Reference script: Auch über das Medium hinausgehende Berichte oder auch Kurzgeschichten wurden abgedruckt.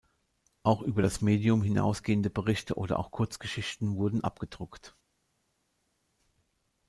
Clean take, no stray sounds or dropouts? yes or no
yes